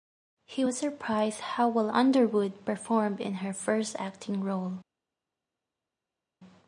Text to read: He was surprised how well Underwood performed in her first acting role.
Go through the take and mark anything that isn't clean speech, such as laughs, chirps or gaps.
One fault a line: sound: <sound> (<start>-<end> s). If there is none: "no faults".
no faults